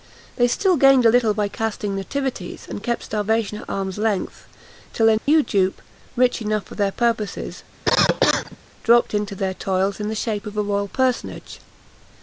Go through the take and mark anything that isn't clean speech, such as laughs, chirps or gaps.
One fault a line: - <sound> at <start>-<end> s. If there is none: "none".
- dropout at 5.2-5.3 s
- cough at 7.9-8.6 s